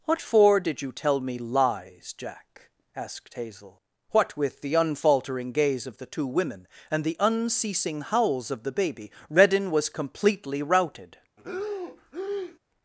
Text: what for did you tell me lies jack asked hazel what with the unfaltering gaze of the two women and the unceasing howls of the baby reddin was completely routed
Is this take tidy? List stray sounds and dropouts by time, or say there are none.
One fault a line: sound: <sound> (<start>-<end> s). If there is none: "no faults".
sound: breath (11.4-12.6 s)